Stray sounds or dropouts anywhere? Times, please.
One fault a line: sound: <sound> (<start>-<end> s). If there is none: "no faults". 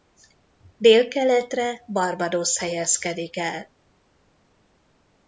no faults